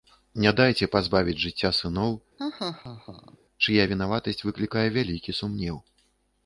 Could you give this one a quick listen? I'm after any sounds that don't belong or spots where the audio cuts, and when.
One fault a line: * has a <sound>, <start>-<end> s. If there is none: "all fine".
* has a laugh, 2.4-3.4 s